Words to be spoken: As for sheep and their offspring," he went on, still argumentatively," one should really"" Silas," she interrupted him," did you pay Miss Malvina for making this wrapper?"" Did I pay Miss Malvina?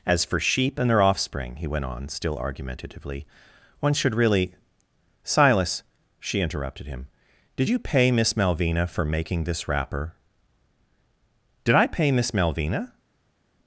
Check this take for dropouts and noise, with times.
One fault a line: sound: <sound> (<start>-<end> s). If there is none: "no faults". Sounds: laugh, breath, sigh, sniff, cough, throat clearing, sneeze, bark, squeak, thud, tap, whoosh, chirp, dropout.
no faults